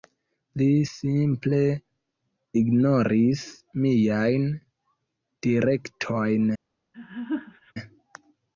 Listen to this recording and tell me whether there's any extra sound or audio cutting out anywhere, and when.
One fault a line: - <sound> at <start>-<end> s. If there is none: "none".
- laugh at 6.9-7.7 s